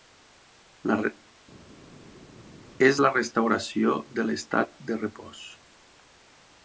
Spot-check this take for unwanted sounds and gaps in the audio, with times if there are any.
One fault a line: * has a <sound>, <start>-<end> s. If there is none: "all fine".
all fine